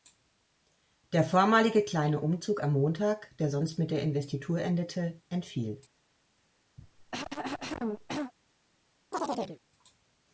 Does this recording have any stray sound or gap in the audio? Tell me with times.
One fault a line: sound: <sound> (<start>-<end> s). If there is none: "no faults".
sound: cough (6.8-8.3 s)
sound: chirp (9.1-9.6 s)